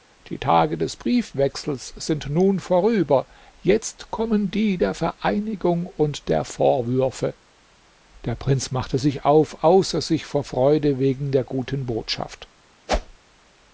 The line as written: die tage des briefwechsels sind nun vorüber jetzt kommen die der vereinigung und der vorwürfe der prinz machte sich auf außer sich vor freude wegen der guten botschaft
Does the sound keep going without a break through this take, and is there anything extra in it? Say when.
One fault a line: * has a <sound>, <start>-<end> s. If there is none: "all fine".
* has a whoosh, 12.9-13.2 s